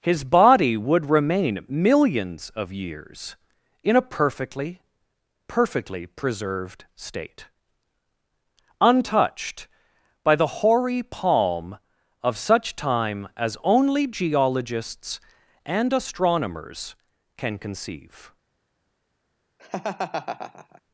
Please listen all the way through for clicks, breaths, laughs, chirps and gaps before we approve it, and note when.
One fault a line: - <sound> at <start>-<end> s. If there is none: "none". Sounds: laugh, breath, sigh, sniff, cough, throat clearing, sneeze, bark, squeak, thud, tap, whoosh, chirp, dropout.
- laugh at 19.6-20.8 s